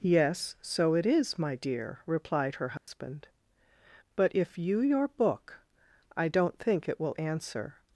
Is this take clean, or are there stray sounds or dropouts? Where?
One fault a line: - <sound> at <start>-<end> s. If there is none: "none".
- dropout at 2.8-2.9 s